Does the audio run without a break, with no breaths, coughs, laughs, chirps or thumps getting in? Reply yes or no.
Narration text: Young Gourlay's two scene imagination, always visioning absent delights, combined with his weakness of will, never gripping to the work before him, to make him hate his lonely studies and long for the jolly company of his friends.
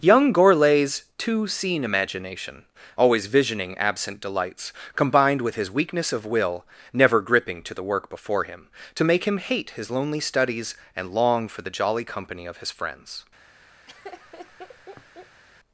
no